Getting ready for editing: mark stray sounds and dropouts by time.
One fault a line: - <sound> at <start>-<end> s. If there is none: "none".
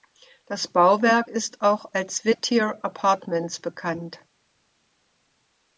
none